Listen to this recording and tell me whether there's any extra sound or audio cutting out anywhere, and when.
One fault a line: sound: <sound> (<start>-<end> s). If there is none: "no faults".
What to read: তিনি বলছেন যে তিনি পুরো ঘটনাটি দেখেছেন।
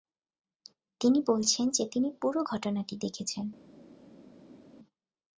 no faults